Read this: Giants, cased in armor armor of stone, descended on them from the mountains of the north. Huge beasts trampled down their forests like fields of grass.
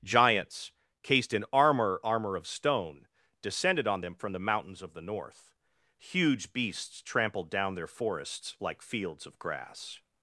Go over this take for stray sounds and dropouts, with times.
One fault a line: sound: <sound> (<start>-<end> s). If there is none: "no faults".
no faults